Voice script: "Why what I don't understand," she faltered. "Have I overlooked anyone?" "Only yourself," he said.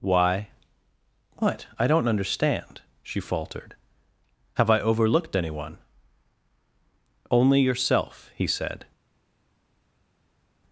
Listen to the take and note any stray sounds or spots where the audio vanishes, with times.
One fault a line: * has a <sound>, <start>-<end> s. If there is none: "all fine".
all fine